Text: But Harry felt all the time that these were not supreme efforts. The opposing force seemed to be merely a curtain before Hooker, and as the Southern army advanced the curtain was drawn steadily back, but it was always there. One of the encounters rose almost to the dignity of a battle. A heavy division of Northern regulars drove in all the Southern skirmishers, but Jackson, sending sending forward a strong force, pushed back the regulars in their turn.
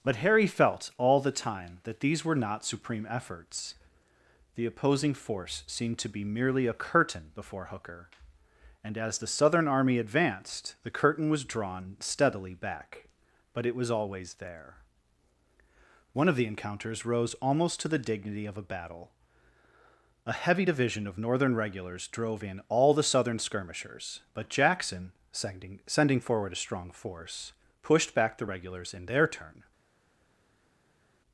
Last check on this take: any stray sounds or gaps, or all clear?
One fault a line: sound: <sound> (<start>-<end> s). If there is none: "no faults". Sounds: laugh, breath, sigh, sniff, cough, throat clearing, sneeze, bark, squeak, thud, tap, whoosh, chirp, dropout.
no faults